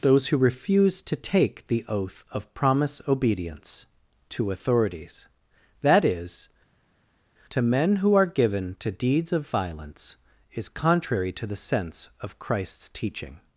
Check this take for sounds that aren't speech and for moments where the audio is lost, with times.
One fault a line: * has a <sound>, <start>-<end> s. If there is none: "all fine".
all fine